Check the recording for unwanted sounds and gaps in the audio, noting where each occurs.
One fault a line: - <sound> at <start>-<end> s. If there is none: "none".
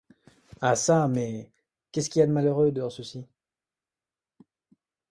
none